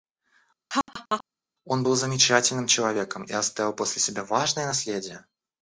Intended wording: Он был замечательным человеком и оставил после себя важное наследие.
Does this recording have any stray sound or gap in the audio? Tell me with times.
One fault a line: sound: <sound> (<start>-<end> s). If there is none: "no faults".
sound: laugh (0.7-1.2 s)